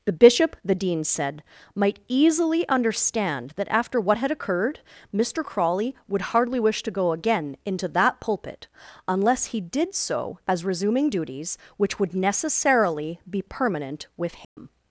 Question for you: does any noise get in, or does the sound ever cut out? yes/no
yes